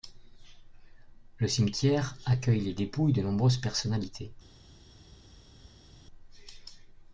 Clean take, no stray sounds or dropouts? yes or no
yes